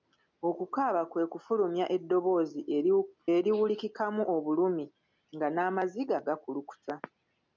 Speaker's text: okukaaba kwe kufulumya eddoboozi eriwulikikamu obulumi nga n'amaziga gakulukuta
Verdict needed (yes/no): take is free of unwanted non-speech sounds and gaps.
yes